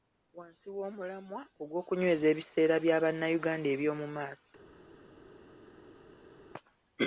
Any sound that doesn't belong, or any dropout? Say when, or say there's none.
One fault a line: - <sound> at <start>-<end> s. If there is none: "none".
none